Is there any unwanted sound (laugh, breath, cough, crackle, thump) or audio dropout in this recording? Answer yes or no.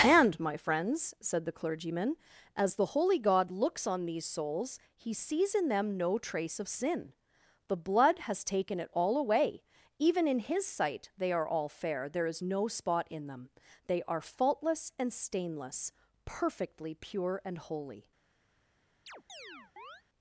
yes